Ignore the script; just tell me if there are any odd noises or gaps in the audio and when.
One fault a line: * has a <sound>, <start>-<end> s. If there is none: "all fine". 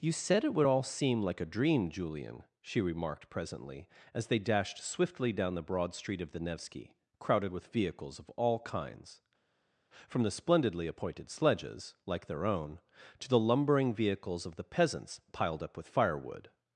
all fine